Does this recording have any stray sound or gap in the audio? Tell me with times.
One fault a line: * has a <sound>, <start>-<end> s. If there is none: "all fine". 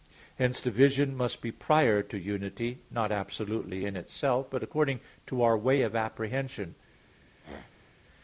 * has a throat clearing, 7.4-8.0 s